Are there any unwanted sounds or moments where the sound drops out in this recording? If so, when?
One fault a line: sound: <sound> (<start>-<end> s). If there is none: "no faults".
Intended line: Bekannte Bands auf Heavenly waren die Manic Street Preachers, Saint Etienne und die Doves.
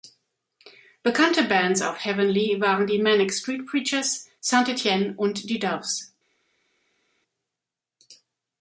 no faults